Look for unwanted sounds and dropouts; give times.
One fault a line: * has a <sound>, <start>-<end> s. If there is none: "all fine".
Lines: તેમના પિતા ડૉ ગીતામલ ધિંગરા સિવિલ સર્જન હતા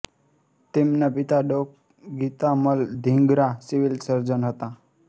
all fine